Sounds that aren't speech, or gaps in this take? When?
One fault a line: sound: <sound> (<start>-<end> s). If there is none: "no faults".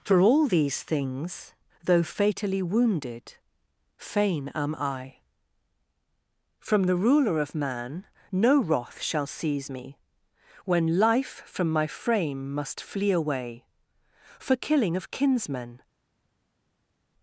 no faults